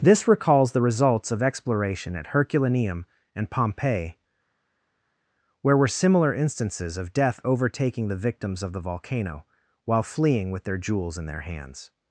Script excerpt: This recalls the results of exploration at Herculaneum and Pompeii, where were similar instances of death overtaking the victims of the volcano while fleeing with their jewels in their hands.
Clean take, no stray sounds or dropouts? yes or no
yes